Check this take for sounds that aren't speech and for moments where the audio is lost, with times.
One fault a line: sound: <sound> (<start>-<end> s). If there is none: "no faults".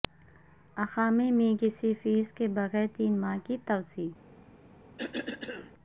sound: cough (5.0-5.7 s)